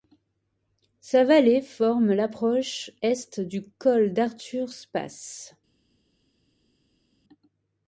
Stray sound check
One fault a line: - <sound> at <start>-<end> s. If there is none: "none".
none